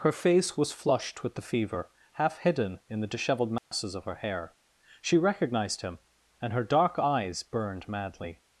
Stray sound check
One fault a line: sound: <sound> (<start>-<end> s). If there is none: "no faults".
sound: dropout (3.6-3.7 s)